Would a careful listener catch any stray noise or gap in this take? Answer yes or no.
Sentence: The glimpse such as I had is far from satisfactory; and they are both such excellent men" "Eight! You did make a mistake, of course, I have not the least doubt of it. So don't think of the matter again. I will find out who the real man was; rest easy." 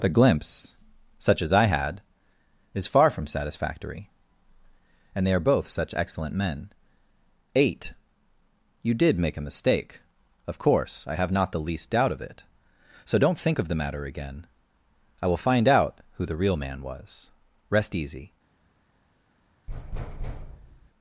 yes